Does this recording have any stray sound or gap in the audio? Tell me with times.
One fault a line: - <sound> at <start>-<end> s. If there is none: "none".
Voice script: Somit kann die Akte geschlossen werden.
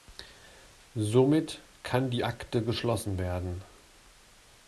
none